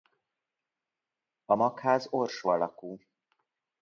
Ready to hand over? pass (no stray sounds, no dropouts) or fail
pass